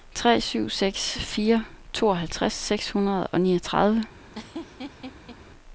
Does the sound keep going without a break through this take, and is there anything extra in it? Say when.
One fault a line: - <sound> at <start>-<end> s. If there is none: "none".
- laugh at 4.3-5.4 s